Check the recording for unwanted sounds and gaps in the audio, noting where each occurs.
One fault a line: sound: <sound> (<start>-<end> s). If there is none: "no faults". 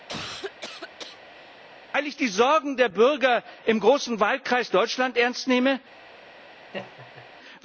sound: cough (0.1-1.6 s)
sound: laugh (6.7-7.3 s)